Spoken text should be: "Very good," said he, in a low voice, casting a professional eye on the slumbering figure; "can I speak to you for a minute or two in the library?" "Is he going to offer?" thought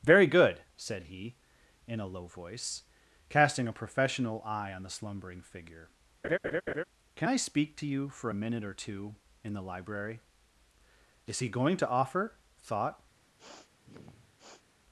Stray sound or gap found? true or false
true